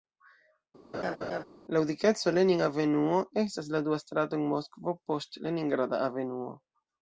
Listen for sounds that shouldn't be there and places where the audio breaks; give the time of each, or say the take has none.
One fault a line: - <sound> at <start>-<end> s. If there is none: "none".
- laugh at 0.9-1.4 s